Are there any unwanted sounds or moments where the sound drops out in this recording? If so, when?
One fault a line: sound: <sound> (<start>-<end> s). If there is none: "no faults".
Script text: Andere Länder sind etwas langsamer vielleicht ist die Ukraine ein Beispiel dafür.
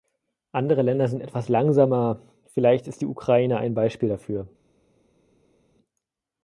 no faults